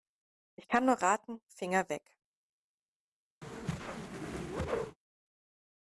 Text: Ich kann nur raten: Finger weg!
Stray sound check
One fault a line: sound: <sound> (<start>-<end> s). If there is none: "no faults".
sound: whoosh (3.4-5.0 s)